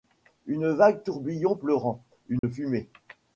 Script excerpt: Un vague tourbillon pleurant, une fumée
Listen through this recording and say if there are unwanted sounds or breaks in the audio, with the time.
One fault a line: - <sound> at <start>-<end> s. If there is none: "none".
- dropout at 2.4-2.4 s